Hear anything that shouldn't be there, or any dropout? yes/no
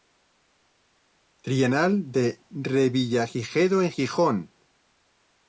no